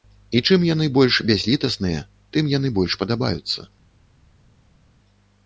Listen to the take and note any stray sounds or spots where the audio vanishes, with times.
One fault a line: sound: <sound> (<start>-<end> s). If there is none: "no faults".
no faults